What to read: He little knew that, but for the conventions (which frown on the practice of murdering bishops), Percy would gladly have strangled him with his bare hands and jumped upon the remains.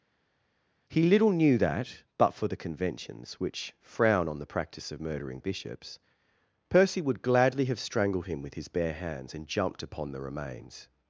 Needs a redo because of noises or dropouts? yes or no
no